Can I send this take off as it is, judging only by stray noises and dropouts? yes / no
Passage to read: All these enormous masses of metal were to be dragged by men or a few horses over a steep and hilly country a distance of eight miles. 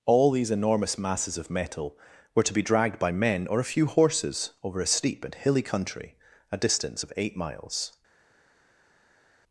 yes